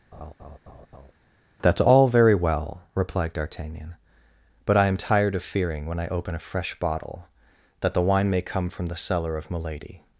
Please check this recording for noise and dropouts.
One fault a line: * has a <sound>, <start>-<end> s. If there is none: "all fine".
* has a laugh, 0.1-1.1 s